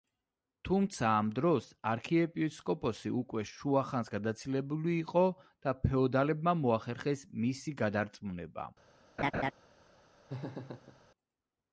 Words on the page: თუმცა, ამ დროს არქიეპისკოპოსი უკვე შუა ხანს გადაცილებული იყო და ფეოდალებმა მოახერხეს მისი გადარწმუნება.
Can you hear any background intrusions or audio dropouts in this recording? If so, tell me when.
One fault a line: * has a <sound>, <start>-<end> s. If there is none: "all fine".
* has a laugh, 9.2-9.5 s
* has a laugh, 10.3-11.0 s